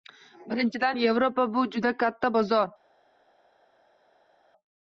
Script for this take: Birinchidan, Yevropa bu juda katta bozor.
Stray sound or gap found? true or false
false